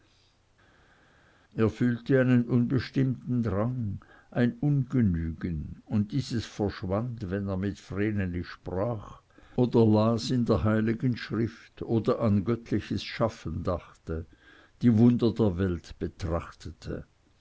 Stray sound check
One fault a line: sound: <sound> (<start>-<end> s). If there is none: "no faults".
no faults